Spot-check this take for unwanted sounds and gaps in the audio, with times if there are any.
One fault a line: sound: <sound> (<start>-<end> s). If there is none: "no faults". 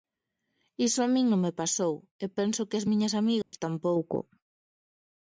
sound: dropout (3.4-3.5 s)